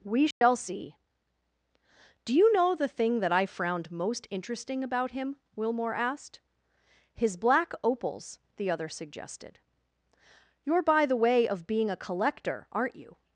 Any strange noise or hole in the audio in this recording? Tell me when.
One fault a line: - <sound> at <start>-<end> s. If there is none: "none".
- dropout at 0.3-0.4 s